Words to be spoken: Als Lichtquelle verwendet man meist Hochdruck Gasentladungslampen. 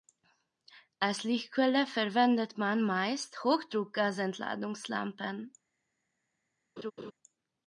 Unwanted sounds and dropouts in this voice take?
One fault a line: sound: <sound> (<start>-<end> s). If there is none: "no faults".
sound: laugh (6.8-7.1 s)